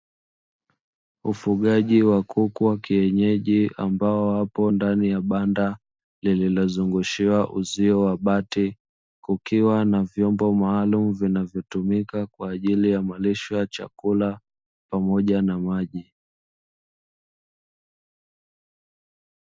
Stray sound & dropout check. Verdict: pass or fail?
pass